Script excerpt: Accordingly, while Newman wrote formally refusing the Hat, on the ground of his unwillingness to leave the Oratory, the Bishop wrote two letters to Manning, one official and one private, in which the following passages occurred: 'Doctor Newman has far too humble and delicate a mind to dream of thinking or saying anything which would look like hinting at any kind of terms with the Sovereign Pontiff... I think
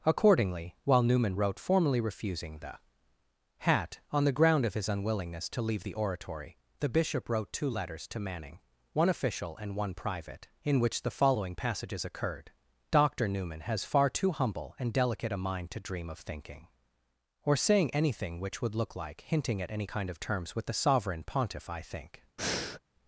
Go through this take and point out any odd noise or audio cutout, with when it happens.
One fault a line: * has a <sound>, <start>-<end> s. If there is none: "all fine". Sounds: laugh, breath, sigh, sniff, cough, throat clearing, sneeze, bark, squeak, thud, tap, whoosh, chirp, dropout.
* has a breath, 22.4-22.8 s